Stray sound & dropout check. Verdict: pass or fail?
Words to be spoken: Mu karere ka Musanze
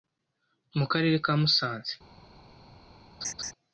fail